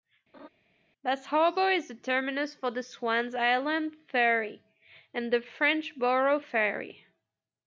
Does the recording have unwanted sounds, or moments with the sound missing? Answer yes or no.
yes